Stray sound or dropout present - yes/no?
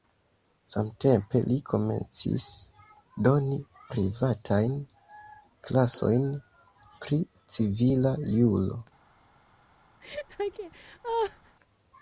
yes